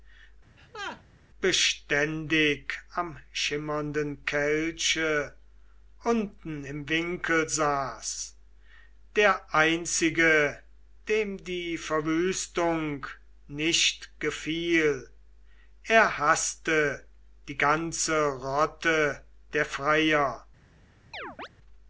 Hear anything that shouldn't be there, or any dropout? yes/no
yes